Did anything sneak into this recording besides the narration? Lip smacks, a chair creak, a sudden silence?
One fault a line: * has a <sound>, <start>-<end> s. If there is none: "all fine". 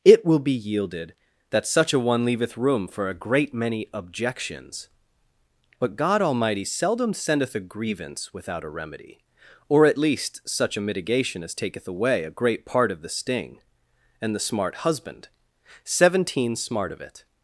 all fine